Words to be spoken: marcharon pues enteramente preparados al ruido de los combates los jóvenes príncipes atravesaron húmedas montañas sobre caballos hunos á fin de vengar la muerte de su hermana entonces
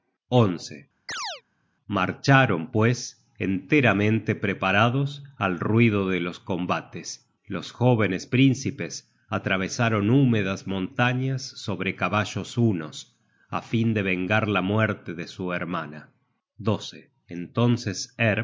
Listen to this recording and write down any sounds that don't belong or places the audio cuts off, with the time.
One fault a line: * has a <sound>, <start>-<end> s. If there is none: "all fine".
* has a chirp, 1.1-1.4 s